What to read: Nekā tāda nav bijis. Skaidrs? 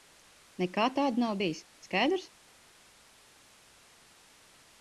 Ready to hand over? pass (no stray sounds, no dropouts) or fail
pass